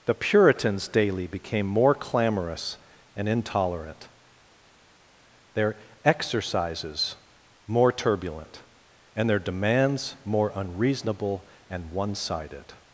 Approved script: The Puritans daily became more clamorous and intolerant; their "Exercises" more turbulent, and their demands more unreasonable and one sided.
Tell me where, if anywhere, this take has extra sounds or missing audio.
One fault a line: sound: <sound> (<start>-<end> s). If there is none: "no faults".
no faults